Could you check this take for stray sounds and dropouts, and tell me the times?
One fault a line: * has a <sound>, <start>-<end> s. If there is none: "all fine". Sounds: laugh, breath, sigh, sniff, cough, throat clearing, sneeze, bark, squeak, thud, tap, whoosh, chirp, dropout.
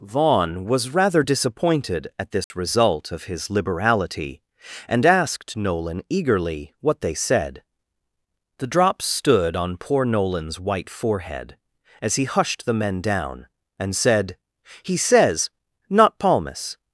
* has a dropout, 2.4-2.5 s